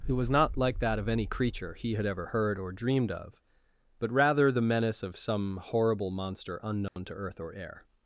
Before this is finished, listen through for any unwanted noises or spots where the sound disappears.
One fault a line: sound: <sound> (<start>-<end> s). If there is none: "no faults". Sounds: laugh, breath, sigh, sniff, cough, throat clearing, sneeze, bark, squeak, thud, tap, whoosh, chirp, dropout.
sound: dropout (6.9-7.0 s)